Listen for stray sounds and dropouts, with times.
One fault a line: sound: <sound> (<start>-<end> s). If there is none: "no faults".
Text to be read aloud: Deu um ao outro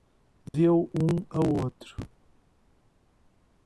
sound: dropout (0.5-0.5 s)